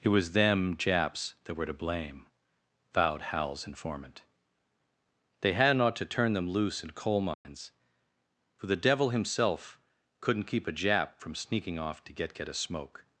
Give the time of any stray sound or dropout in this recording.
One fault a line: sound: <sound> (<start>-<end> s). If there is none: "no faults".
sound: dropout (7.3-7.5 s)